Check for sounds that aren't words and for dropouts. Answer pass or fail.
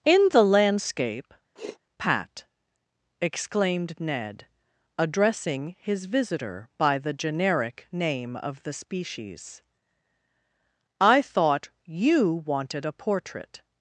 fail